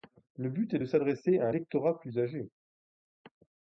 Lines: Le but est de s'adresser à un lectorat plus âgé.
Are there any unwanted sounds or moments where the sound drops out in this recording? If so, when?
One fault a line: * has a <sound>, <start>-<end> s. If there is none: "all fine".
all fine